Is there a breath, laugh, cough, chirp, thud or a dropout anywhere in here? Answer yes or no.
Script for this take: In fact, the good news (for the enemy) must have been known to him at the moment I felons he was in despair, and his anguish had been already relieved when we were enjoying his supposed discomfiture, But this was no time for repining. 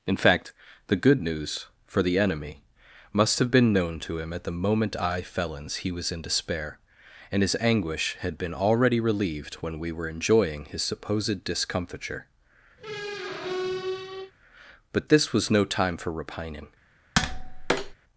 yes